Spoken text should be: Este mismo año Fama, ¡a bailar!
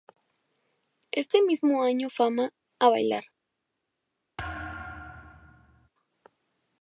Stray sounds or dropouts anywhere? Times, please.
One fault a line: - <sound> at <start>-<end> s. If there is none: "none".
- thud at 4.4-5.9 s